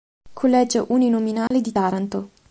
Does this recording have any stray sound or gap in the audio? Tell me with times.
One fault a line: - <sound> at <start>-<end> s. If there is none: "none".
- dropout at 1.5-1.5 s